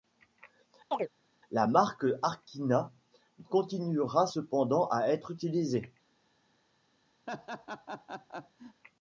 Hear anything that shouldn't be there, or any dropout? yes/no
yes